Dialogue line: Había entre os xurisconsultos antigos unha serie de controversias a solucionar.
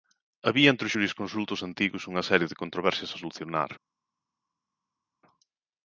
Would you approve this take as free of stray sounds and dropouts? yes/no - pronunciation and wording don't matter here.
yes